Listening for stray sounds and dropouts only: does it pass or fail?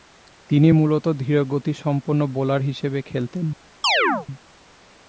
fail